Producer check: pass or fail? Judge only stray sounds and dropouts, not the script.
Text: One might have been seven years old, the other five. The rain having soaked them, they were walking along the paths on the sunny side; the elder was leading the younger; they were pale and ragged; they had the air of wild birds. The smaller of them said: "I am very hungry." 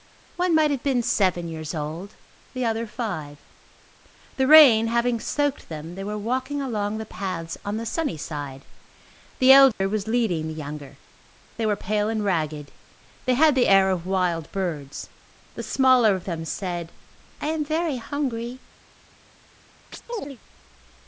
fail